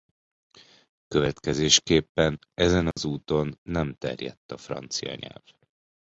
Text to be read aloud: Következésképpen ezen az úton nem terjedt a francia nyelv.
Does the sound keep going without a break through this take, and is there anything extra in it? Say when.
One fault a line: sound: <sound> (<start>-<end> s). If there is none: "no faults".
sound: dropout (2.9-3.0 s)